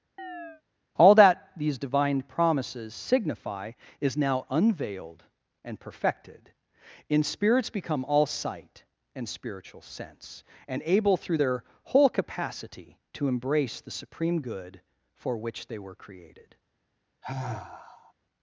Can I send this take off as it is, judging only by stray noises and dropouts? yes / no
no